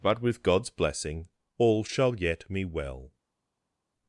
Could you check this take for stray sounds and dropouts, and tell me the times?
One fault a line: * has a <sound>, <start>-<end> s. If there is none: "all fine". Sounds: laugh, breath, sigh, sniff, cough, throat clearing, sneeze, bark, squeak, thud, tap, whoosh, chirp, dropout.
all fine